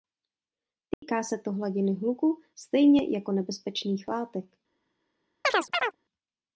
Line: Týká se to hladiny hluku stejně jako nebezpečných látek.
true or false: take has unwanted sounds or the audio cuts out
true